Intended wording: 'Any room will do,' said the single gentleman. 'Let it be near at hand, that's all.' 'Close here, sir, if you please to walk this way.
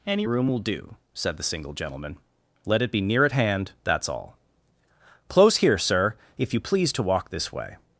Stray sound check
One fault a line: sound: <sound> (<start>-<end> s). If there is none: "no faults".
no faults